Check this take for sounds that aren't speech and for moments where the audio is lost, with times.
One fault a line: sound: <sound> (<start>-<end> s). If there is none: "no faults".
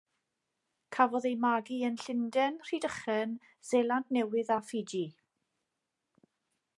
no faults